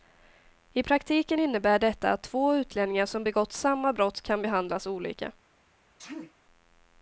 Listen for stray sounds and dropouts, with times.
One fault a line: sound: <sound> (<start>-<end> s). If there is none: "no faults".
sound: sneeze (6.0-6.3 s)